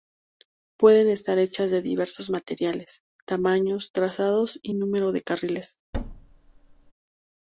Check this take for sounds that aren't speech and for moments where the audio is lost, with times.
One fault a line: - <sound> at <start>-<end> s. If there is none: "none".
- thud at 5.9-6.9 s